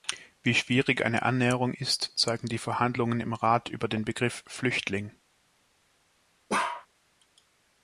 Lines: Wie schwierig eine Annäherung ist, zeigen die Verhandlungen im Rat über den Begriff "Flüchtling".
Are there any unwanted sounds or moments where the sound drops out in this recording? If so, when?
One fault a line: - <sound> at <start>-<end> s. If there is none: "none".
- bark at 6.5-6.9 s